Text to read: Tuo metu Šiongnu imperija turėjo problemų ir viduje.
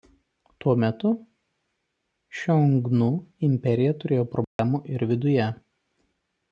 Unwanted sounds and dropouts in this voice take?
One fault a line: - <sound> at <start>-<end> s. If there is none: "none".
- dropout at 4.4-4.6 s